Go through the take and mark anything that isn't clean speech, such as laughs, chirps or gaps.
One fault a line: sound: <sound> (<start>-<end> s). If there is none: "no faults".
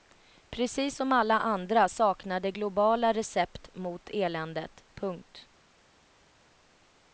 no faults